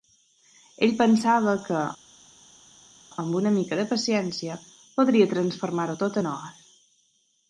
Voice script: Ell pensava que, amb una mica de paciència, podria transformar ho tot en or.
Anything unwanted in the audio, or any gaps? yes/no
no